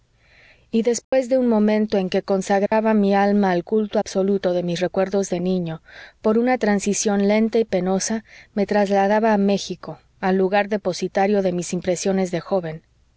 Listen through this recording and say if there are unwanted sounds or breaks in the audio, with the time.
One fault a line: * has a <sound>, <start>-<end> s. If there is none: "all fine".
* has a dropout, 1.0-1.1 s
* has a dropout, 2.7-2.7 s